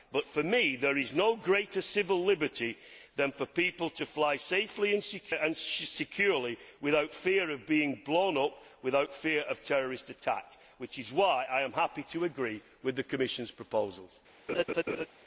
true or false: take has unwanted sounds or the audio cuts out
true